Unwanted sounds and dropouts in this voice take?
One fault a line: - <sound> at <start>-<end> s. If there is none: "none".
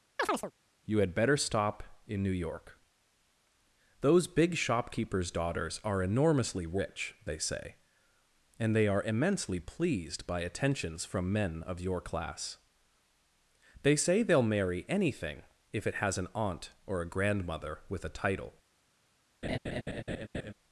- chirp at 0.2-0.5 s
- laugh at 19.4-20.5 s